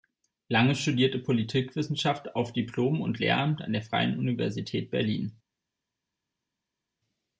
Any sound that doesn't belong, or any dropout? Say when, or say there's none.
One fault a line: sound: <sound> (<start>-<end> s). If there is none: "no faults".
no faults